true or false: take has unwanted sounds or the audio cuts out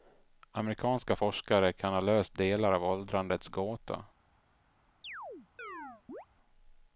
true